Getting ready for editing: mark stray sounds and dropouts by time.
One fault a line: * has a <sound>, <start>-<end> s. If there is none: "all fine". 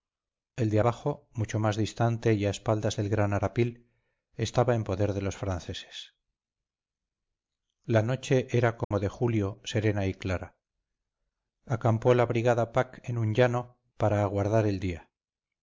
* has a dropout, 8.8-8.9 s